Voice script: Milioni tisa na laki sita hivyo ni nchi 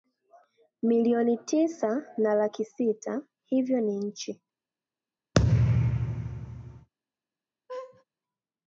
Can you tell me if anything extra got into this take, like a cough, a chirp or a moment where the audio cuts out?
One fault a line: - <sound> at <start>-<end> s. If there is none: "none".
- thud at 5.3-6.9 s
- laugh at 7.7-8.0 s